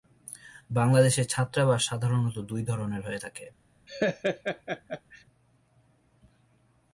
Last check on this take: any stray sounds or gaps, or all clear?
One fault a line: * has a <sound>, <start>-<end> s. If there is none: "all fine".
* has a laugh, 3.9-5.2 s